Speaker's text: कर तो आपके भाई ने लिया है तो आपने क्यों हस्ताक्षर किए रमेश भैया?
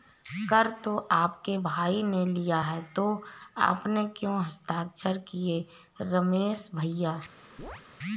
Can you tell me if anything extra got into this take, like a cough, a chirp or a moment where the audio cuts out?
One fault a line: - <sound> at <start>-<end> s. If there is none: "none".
- chirp at 7.6-7.8 s